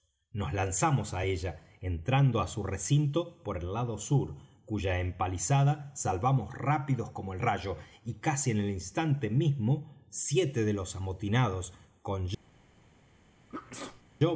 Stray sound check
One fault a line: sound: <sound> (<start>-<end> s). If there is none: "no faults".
sound: sneeze (13.5-14.0 s)